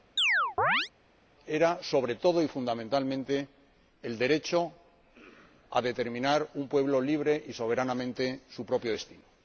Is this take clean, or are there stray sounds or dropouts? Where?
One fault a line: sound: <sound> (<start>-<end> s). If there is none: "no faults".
sound: chirp (0.2-0.9 s)